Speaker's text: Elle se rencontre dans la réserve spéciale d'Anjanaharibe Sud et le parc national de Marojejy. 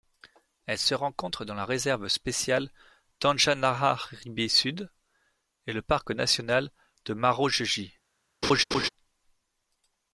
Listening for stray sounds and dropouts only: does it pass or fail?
fail